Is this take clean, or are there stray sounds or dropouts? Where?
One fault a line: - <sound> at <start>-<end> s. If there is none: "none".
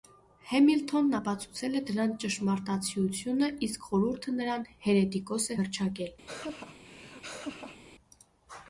- laugh at 6.3-7.8 s